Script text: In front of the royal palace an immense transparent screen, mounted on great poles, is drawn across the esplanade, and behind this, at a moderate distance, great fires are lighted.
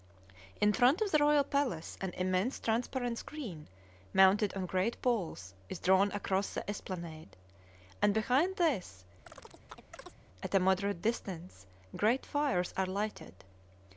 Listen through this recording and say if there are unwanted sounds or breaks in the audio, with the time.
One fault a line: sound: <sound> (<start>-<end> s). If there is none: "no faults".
sound: chirp (9.3-10.2 s)